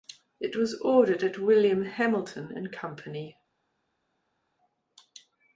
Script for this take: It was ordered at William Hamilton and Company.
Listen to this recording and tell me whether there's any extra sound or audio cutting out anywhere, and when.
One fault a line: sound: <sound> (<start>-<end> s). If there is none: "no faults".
no faults